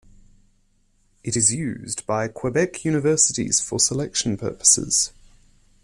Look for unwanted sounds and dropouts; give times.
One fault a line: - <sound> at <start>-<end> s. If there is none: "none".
none